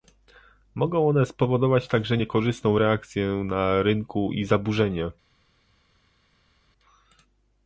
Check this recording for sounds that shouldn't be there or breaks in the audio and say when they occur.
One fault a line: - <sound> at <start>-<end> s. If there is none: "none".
none